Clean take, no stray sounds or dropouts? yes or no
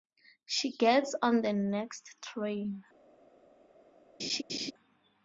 no